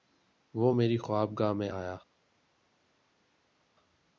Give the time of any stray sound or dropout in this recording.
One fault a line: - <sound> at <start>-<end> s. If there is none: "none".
none